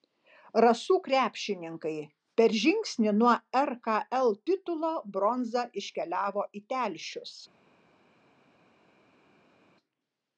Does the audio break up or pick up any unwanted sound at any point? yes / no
no